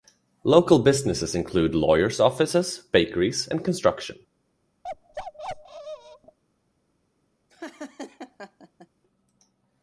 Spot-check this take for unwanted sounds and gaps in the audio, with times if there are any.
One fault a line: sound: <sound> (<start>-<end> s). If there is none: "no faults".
sound: bark (4.8-6.4 s)
sound: laugh (7.5-8.9 s)